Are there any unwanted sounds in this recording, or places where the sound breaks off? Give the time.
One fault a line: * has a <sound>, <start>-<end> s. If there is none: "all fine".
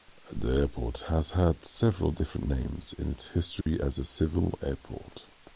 * has a dropout, 3.6-3.7 s